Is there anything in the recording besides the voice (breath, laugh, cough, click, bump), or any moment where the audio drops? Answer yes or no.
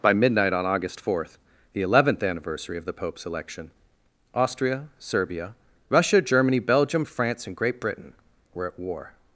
no